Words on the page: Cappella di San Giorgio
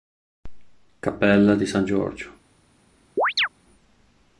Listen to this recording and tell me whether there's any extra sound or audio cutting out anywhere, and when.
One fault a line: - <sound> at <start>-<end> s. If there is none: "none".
- chirp at 3.2-3.5 s